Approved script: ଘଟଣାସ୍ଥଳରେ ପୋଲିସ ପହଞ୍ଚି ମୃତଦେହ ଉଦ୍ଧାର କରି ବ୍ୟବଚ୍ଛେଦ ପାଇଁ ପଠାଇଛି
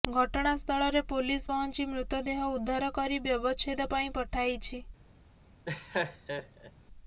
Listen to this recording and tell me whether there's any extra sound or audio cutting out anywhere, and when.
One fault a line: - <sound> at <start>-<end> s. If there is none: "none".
- laugh at 5.6-6.7 s